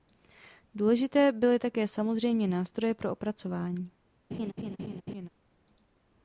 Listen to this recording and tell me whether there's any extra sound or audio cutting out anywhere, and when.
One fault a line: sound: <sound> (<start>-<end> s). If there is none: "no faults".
sound: laugh (4.3-5.3 s)